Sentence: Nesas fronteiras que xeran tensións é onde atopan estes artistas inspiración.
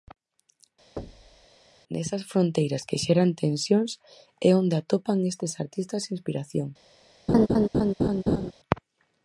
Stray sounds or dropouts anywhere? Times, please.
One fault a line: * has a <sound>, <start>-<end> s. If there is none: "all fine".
* has a thud, 1.0-1.5 s
* has a laugh, 7.3-8.5 s